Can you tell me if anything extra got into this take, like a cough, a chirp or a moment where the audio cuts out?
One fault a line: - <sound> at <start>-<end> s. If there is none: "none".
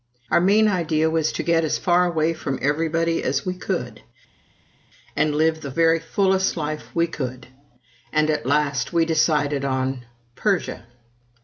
none